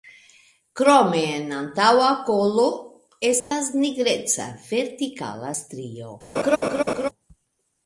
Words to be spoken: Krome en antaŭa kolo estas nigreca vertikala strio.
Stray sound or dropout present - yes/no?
yes